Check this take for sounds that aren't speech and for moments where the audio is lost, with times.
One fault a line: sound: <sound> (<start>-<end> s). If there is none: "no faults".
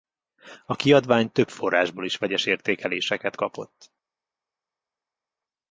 no faults